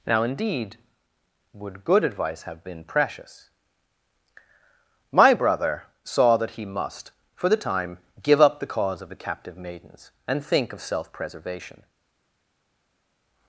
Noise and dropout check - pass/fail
pass